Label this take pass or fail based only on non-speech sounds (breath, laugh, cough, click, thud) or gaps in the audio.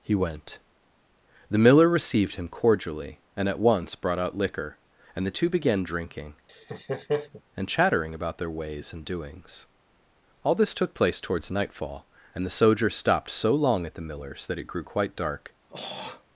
fail